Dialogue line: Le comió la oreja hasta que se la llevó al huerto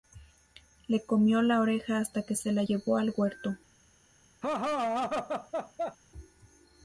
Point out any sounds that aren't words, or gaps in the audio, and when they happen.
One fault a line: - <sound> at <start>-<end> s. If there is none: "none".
- laugh at 4.4-6.0 s